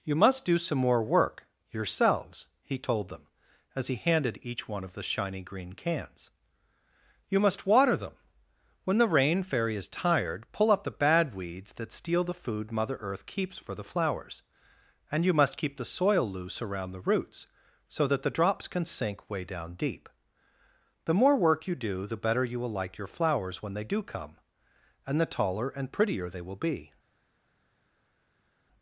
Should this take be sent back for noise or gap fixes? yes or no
no